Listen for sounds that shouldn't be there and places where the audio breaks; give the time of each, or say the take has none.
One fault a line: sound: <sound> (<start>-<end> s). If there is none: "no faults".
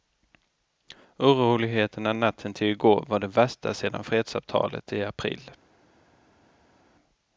no faults